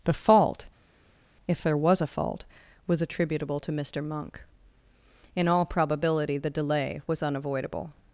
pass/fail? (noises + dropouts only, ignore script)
pass